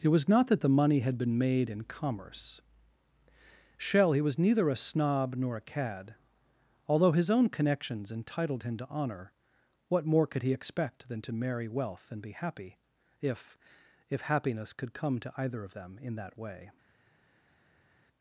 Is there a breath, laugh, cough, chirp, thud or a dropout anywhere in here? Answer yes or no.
no